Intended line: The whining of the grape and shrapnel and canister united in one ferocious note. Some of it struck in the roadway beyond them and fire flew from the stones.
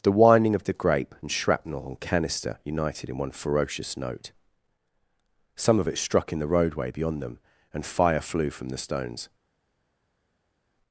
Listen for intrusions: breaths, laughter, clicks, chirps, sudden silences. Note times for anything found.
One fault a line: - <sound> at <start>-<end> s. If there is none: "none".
none